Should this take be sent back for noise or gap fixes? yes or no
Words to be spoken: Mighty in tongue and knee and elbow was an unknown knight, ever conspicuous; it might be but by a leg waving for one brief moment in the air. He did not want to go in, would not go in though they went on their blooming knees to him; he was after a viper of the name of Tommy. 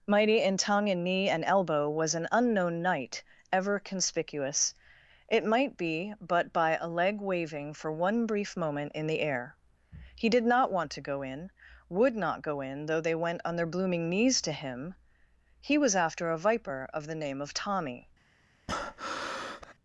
yes